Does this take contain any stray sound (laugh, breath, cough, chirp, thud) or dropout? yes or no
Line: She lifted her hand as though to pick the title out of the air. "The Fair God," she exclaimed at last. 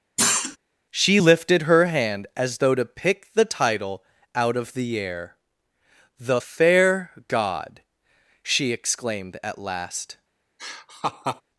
yes